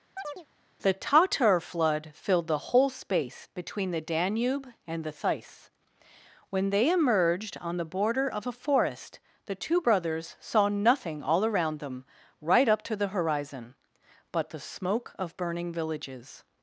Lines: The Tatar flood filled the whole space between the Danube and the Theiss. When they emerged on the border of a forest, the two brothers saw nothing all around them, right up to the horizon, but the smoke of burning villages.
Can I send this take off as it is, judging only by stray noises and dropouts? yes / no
no